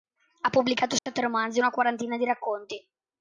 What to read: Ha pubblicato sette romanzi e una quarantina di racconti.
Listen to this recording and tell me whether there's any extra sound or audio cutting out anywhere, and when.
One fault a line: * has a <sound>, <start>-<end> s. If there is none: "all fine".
* has a dropout, 1.0-1.1 s